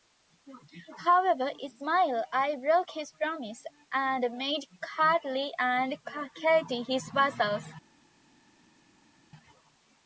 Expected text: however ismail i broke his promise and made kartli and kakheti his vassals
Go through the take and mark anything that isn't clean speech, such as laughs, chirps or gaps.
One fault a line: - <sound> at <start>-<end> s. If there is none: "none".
none